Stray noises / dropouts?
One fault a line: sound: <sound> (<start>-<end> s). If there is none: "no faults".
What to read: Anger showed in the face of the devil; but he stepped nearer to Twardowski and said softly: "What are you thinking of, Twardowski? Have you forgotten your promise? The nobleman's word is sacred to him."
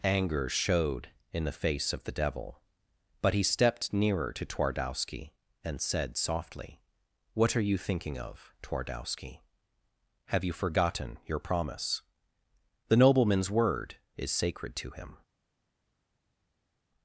no faults